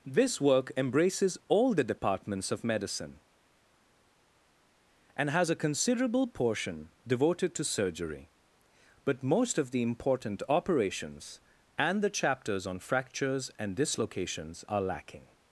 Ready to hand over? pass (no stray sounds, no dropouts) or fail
pass